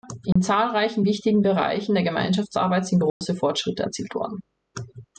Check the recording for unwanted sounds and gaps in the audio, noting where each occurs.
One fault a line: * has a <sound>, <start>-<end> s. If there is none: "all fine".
* has a dropout, 0.3-0.4 s
* has a dropout, 3.1-3.2 s